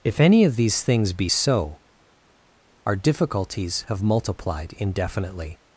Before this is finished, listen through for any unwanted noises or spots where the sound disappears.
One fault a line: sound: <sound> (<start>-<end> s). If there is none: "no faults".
no faults